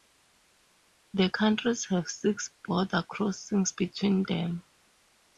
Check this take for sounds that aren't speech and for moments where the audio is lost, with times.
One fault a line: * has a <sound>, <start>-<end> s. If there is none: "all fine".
all fine